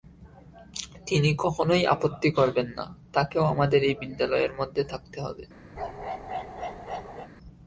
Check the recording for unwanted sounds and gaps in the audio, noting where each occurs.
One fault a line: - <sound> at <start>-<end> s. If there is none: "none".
- bark at 5.8-7.3 s